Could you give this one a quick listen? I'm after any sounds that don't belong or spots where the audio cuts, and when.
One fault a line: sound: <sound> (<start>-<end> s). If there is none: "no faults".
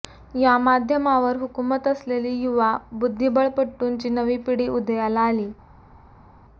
no faults